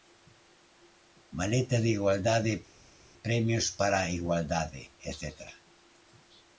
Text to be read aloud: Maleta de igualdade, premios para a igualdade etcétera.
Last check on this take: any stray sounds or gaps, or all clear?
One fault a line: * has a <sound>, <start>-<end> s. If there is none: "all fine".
all fine